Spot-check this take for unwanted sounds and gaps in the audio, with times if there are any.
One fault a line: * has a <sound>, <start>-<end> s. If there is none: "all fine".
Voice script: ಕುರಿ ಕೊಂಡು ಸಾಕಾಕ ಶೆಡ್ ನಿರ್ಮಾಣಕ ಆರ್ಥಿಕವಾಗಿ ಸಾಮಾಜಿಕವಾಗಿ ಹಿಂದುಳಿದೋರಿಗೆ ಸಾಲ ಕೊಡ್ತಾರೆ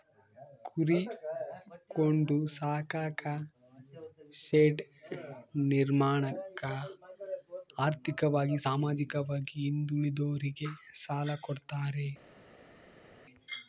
all fine